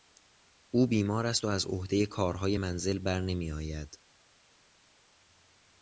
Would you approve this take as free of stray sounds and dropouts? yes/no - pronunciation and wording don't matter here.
yes